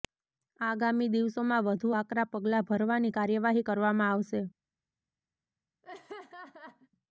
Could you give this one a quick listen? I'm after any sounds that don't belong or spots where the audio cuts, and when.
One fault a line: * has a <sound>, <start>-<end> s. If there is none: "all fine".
* has a laugh, 5.8-6.9 s